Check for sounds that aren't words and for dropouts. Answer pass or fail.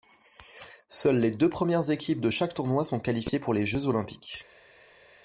pass